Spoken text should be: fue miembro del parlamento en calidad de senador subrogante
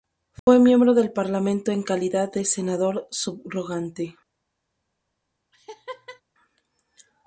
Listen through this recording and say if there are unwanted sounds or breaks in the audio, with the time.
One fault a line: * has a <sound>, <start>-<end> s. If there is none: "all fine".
* has a dropout, 0.4-0.5 s
* has a laugh, 5.5-6.2 s